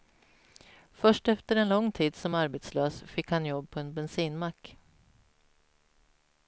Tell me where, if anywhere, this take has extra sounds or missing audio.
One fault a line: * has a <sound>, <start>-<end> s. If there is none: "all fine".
all fine